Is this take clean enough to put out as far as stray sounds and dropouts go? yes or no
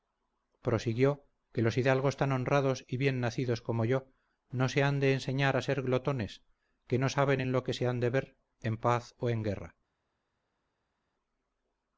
yes